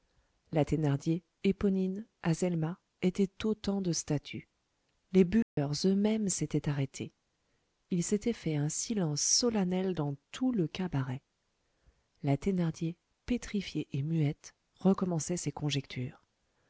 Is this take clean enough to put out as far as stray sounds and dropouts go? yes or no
no